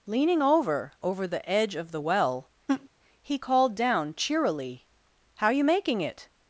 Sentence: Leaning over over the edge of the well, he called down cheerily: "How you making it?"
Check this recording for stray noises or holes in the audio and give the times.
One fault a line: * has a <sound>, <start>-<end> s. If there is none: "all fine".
* has a laugh, 2.7-2.9 s